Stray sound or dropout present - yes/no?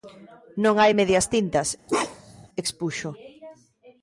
yes